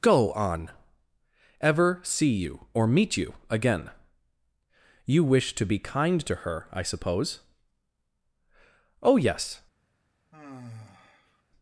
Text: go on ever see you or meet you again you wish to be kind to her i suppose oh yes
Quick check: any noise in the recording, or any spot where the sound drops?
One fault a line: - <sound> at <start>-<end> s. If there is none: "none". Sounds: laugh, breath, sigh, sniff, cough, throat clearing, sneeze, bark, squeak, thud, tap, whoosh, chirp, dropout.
- sigh at 10.3-11.4 s